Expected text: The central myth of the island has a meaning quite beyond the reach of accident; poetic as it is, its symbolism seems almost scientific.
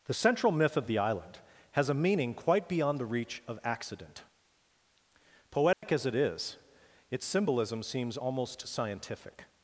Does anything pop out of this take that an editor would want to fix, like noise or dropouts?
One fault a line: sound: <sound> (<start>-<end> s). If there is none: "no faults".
sound: dropout (5.7-5.8 s)